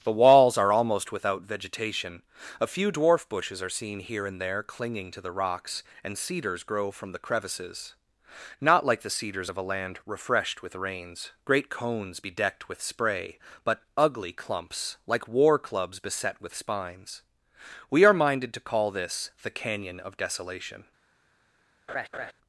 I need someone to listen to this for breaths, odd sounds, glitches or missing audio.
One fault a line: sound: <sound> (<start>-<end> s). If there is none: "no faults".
sound: laugh (21.9-22.3 s)